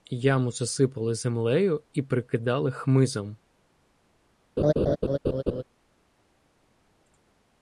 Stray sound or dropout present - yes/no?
yes